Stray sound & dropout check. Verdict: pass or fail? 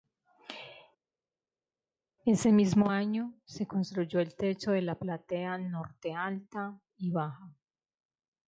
pass